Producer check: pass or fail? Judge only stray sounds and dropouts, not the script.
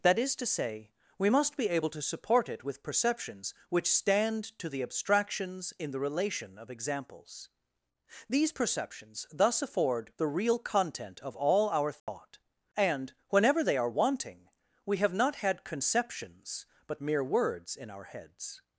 fail